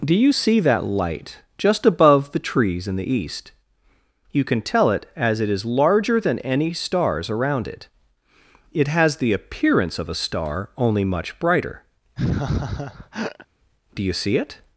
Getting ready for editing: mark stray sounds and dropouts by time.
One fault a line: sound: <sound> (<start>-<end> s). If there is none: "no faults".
sound: laugh (12.2-13.5 s)